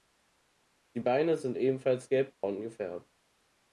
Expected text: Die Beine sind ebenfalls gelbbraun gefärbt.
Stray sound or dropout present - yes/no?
yes